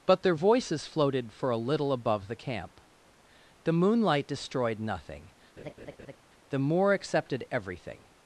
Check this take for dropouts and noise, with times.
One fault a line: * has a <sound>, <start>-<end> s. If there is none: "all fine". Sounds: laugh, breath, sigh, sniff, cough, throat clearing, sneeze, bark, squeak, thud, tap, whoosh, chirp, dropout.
* has a laugh, 5.6-6.2 s